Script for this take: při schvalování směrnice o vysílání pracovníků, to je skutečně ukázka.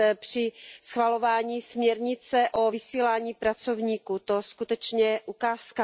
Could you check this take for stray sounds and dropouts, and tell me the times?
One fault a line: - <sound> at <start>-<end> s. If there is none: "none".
none